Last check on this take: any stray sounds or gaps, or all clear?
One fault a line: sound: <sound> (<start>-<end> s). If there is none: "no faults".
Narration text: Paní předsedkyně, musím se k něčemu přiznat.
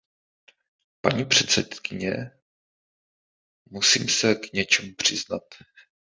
no faults